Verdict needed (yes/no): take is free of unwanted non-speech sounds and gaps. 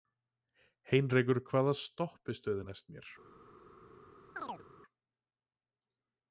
no